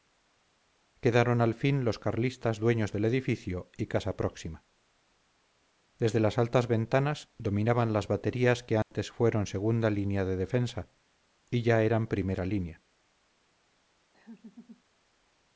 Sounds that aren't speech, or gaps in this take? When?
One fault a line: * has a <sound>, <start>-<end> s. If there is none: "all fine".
* has a dropout, 8.8-8.9 s
* has a laugh, 14.1-14.8 s